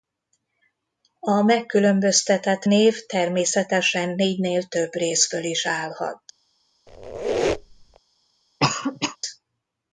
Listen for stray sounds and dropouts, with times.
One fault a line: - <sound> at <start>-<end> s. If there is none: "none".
- squeak at 6.9-8.0 s
- cough at 8.6-9.2 s